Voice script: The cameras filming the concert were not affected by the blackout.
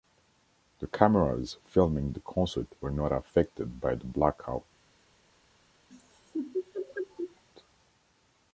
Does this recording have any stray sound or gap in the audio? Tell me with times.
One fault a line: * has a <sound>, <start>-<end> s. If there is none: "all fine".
* has a laugh, 5.9-7.4 s